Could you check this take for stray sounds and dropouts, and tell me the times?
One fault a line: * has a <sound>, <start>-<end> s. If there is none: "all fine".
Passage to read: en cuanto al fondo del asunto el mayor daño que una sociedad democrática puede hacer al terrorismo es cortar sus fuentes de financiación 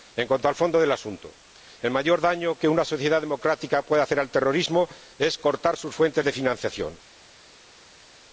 all fine